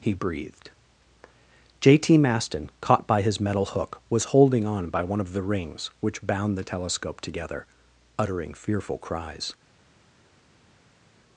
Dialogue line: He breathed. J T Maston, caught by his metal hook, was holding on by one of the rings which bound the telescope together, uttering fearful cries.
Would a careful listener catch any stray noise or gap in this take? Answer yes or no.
no